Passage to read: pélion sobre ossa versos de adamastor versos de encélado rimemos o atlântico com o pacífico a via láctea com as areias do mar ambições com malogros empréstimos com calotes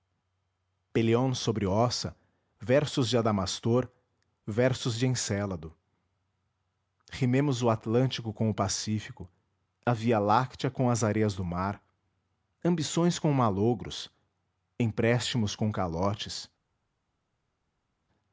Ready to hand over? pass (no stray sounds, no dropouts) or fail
pass